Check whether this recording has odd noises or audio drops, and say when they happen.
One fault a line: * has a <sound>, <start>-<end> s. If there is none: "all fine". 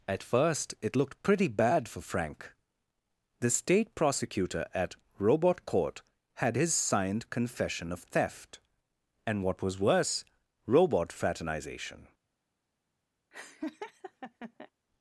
* has a laugh, 13.3-14.7 s